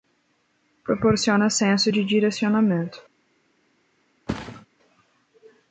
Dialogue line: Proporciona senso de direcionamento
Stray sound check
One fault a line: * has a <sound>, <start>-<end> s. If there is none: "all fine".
* has a thud, 4.3-4.7 s